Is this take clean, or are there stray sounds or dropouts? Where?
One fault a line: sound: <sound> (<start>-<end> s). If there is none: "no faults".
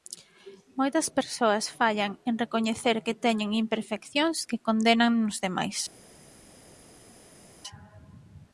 no faults